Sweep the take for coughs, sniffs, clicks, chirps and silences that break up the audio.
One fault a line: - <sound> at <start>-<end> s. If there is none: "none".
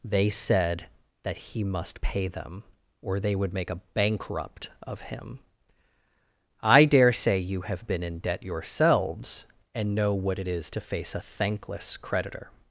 none